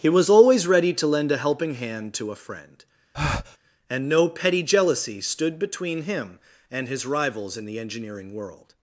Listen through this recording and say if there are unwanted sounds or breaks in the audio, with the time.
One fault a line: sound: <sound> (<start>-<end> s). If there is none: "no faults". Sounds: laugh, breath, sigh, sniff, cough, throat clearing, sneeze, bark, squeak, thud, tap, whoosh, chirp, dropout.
sound: breath (3.1-3.6 s)